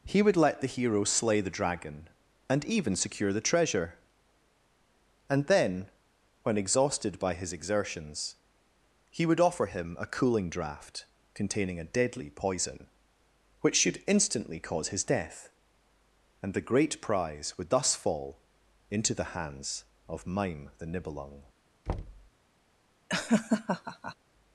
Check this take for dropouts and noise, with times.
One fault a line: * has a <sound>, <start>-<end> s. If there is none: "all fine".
* has a thud, 21.9-22.3 s
* has a laugh, 23.1-24.2 s